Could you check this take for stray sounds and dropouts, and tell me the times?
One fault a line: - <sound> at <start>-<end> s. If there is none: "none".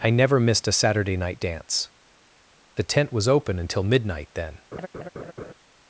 - laugh at 4.7-5.5 s